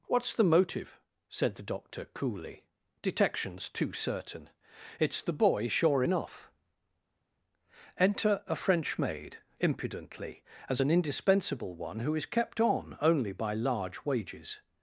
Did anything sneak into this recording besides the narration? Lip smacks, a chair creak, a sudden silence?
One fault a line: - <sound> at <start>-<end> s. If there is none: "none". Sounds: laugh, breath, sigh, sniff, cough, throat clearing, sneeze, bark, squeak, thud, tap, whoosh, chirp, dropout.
none